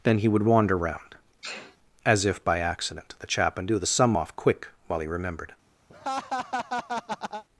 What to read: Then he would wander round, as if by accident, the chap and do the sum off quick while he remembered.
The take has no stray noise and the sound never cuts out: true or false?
false